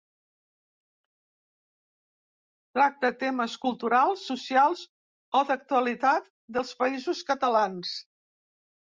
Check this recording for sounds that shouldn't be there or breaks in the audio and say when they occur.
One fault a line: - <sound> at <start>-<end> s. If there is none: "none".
none